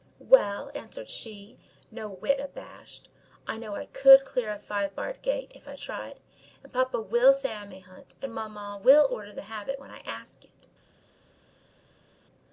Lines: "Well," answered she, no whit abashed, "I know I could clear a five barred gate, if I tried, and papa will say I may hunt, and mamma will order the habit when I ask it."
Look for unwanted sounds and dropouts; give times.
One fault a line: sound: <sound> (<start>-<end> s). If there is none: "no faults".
no faults